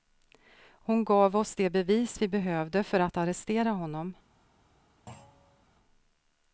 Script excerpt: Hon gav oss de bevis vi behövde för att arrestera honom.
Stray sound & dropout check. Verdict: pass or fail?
fail